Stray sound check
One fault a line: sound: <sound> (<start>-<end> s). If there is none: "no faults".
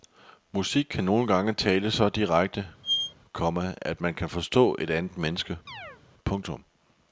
sound: squeak (2.8-3.1 s)
sound: chirp (5.7-6.0 s)